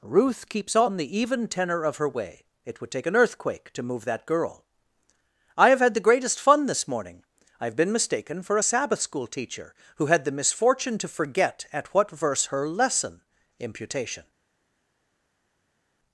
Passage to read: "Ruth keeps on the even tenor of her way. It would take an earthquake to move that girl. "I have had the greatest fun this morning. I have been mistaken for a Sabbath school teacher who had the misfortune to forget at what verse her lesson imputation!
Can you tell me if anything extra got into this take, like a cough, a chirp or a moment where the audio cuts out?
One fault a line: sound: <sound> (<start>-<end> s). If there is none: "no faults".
no faults